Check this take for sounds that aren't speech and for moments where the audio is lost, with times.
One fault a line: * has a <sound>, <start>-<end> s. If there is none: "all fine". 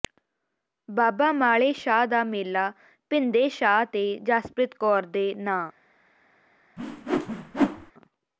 * has a whoosh, 6.8-7.9 s